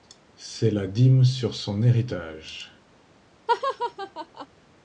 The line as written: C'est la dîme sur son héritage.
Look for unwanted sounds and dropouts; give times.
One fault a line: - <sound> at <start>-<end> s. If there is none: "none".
- laugh at 3.5-4.5 s